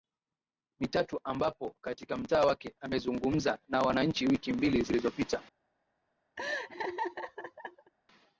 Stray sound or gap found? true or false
true